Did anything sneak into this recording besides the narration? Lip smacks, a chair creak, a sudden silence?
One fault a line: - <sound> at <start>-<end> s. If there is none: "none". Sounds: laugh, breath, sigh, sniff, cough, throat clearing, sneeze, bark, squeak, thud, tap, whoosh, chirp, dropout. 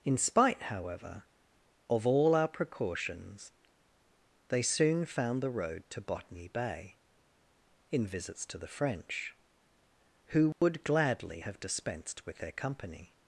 - dropout at 10.5-10.6 s